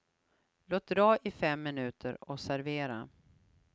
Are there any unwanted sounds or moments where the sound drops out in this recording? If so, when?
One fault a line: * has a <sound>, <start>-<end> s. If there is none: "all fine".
all fine